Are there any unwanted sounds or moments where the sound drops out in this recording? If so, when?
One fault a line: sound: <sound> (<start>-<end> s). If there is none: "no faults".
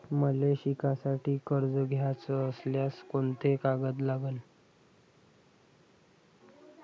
no faults